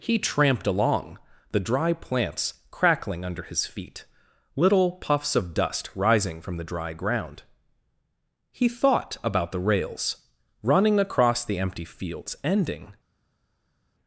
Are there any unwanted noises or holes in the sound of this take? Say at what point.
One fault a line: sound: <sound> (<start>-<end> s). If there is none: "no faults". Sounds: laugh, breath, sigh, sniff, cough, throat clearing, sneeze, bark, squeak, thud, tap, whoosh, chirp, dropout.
no faults